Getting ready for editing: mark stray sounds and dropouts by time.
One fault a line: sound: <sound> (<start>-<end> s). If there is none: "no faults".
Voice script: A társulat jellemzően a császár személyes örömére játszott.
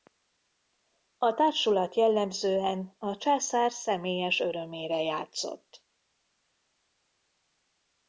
no faults